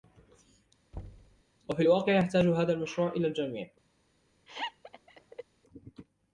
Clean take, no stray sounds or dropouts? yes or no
no